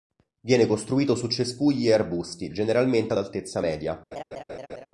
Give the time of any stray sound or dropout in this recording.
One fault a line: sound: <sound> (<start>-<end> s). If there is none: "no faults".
sound: laugh (4.1-4.9 s)